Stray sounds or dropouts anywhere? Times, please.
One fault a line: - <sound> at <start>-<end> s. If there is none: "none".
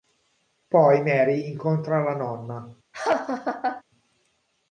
- laugh at 2.9-3.8 s